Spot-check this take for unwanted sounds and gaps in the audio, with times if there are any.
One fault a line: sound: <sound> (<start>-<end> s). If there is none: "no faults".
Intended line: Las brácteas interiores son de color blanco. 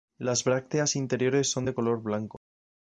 no faults